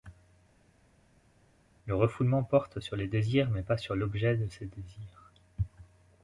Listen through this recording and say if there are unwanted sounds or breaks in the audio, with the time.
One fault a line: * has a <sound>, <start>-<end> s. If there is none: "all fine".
all fine